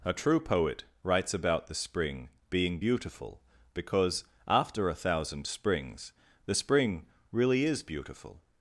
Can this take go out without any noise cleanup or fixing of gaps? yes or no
yes